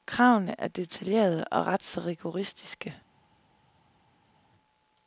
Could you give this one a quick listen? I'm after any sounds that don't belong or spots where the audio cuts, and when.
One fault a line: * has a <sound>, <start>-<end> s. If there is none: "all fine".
all fine